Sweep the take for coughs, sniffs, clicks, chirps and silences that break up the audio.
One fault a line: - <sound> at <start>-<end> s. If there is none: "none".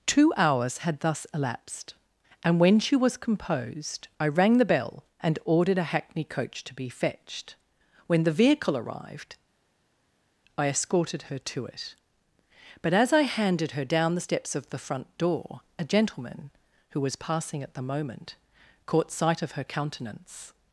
none